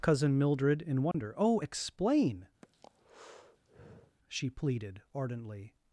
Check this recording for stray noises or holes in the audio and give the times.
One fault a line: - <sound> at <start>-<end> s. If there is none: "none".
- dropout at 1.1-1.1 s
- breath at 2.6-4.2 s